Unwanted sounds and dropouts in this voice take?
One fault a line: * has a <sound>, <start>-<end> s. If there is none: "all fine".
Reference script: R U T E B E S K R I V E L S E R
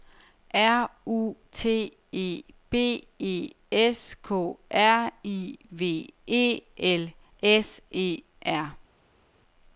all fine